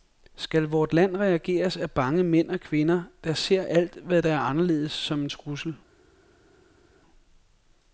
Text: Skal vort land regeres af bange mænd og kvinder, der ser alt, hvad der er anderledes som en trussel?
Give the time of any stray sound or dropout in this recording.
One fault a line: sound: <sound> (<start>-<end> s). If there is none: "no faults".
no faults